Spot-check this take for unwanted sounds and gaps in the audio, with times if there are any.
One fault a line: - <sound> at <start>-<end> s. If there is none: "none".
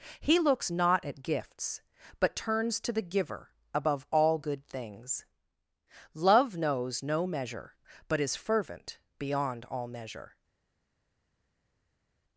none